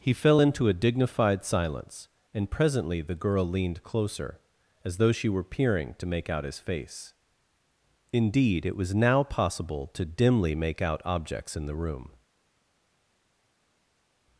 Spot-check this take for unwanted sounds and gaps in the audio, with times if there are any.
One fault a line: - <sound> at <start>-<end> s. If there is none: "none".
none